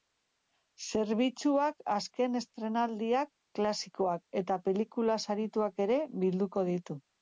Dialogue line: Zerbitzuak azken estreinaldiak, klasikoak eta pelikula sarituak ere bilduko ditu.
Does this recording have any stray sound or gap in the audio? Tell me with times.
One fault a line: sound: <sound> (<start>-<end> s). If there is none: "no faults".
no faults